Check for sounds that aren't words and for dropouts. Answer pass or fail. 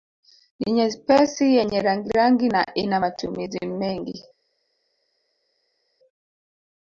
pass